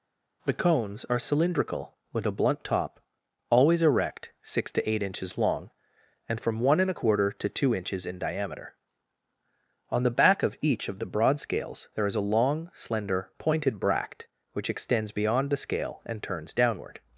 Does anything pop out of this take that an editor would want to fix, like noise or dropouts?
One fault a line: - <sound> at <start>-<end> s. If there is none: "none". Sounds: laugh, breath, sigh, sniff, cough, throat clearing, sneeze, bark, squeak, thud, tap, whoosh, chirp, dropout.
none